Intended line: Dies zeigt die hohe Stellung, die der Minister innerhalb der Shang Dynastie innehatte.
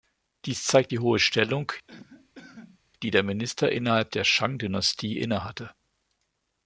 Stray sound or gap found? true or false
true